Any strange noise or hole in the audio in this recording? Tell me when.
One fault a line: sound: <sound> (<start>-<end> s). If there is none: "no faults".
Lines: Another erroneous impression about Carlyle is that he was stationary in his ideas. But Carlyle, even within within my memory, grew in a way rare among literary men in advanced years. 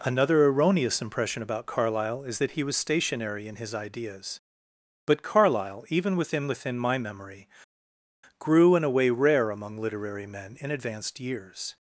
no faults